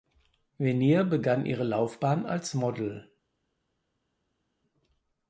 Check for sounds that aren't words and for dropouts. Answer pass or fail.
pass